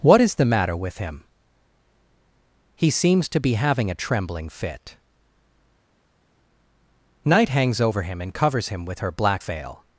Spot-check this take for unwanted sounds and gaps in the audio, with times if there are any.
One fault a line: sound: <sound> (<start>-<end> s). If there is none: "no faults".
no faults